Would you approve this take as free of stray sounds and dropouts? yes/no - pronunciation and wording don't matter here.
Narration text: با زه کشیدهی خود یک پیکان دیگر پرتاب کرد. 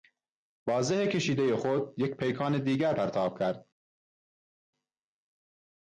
yes